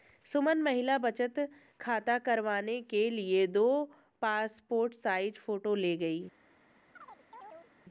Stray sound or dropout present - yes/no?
yes